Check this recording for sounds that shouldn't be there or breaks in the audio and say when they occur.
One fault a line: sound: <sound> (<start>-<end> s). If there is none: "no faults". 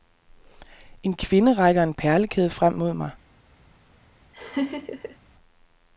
sound: laugh (4.3-5.2 s)